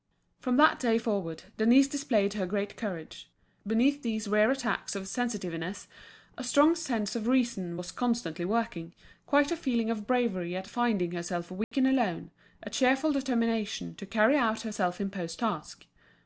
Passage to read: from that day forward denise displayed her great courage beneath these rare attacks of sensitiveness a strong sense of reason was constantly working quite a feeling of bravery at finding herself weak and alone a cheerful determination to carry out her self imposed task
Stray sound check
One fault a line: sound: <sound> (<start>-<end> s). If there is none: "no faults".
sound: dropout (11.6-11.7 s)